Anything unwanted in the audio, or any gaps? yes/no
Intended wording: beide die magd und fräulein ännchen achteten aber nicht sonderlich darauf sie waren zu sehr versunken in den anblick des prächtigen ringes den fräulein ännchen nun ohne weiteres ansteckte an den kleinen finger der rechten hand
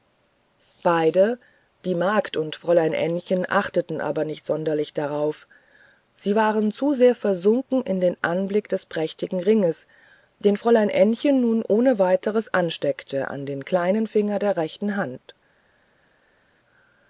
no